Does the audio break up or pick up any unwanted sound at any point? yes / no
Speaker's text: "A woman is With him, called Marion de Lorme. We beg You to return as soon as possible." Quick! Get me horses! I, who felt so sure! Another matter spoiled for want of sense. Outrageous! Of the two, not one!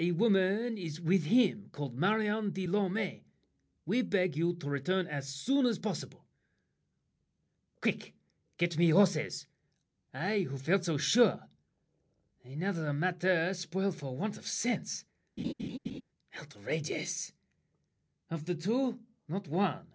yes